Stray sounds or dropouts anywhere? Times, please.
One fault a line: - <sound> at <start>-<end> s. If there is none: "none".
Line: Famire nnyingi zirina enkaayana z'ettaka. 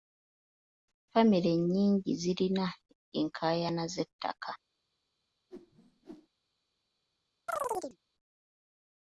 - whoosh at 5.5-6.3 s
- chirp at 7.5-8.0 s